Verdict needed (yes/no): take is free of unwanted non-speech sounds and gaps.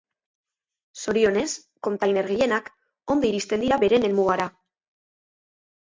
yes